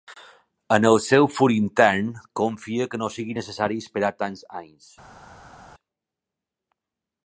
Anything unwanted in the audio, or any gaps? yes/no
no